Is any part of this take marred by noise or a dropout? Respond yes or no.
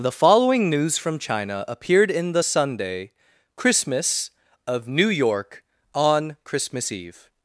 no